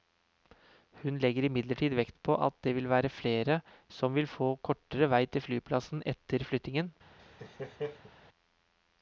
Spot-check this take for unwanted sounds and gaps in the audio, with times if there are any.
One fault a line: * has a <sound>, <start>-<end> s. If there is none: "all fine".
* has a laugh, 7.2-8.1 s